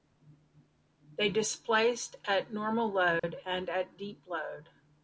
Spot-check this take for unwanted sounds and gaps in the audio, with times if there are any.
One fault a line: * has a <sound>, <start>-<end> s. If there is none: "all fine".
* has a dropout, 3.2-3.2 s